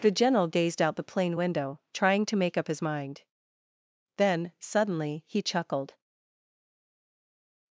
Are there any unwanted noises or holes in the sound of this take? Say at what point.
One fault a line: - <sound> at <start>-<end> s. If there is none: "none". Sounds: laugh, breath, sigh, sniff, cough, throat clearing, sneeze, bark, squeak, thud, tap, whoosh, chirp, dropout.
none